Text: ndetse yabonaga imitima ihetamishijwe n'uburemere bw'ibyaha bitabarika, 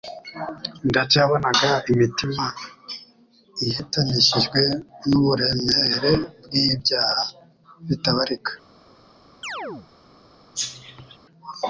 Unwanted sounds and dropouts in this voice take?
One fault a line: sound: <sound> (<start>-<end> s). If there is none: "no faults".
sound: chirp (9.4-9.9 s)
sound: cough (10.5-11.2 s)